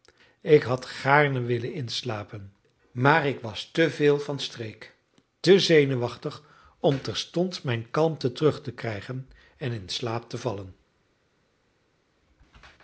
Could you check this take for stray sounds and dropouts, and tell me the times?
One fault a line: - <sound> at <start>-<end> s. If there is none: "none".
none